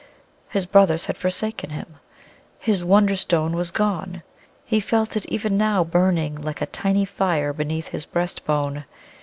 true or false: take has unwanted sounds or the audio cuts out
false